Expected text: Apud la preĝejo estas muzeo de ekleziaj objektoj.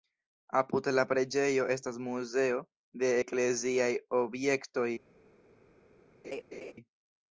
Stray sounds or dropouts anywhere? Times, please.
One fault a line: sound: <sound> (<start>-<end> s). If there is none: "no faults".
sound: laugh (6.2-6.7 s)